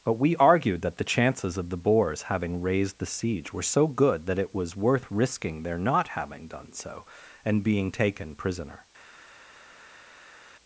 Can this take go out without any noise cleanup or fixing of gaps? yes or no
yes